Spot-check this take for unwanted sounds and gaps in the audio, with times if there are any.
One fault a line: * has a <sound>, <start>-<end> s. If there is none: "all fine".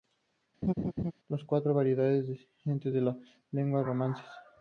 * has a laugh, 0.6-1.1 s